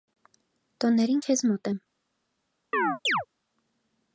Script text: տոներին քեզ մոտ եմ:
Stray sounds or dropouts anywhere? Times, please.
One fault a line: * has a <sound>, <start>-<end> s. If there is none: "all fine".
* has a chirp, 2.7-3.3 s